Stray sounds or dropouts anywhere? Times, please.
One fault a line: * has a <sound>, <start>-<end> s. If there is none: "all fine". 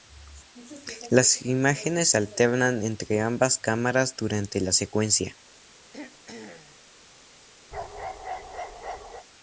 * has a throat clearing, 5.9-6.8 s
* has a bark, 7.7-9.3 s